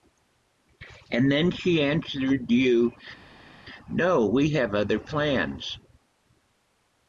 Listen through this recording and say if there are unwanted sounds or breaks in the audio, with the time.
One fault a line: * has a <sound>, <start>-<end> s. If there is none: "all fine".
all fine